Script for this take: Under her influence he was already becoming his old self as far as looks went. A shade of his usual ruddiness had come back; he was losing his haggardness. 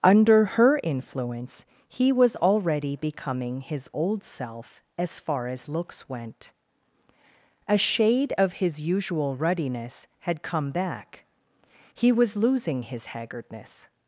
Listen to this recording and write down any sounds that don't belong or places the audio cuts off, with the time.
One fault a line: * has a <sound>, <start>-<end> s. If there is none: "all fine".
all fine